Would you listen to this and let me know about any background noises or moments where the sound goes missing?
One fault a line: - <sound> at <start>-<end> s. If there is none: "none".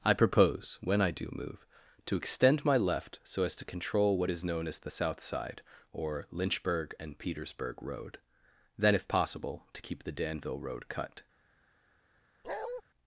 - bark at 12.4-12.8 s